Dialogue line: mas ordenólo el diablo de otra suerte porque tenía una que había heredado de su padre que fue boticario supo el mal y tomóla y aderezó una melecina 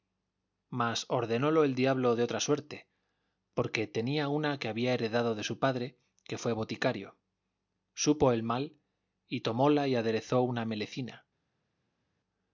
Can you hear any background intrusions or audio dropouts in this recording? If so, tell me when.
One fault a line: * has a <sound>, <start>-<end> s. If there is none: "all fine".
all fine